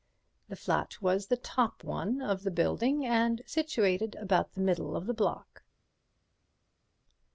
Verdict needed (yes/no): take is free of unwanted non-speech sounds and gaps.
yes